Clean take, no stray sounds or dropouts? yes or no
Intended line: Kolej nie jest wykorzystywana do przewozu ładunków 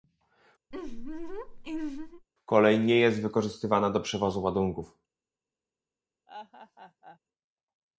no